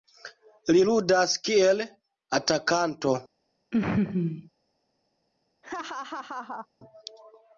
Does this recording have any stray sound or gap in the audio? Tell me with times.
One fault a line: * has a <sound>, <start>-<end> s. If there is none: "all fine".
* has a laugh, 3.7-4.5 s
* has a laugh, 5.6-6.7 s